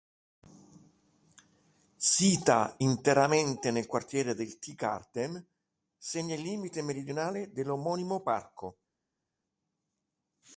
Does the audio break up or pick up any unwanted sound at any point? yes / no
no